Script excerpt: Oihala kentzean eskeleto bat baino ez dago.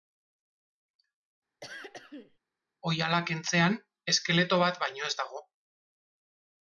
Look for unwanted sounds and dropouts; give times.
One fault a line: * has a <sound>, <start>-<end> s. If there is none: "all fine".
* has a throat clearing, 1.6-2.4 s